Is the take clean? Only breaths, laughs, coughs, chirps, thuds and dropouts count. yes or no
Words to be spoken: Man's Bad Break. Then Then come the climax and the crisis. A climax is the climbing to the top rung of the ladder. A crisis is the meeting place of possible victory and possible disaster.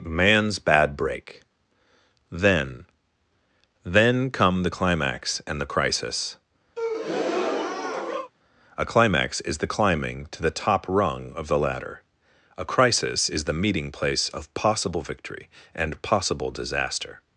no